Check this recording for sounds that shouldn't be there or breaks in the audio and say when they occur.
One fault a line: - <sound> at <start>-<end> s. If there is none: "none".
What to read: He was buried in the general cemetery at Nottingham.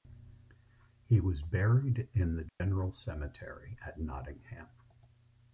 - dropout at 2.5-2.6 s